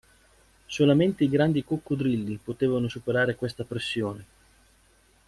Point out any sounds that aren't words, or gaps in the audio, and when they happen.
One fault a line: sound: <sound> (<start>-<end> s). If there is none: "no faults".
no faults